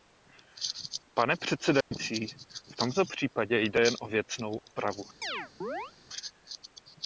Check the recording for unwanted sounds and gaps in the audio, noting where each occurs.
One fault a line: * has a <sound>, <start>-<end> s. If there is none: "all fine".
* has a dropout, 1.8-1.9 s
* has a chirp, 5.2-5.9 s